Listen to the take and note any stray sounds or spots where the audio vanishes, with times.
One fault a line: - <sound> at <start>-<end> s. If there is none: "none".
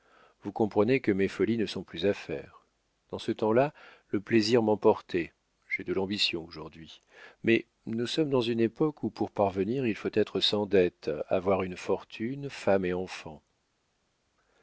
none